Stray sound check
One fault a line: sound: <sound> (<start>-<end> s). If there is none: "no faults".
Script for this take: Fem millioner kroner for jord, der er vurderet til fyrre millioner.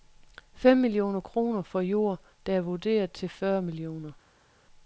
no faults